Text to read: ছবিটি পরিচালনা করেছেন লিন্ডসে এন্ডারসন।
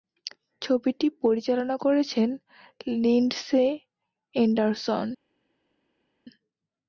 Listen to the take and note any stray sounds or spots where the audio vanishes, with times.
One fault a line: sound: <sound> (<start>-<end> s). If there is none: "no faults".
no faults